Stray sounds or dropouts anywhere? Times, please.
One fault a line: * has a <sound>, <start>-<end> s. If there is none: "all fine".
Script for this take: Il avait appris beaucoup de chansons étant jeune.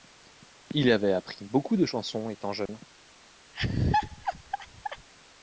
* has a dropout, 2.7-2.7 s
* has a laugh, 3.5-5.1 s